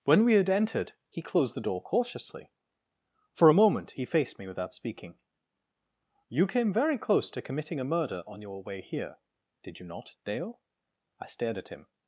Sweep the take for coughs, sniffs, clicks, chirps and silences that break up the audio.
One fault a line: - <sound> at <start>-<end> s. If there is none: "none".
none